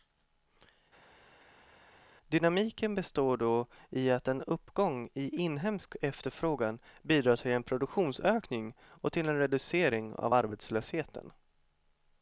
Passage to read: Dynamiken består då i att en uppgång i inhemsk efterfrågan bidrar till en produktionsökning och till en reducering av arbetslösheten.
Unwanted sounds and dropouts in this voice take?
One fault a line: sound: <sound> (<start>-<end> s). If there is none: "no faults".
no faults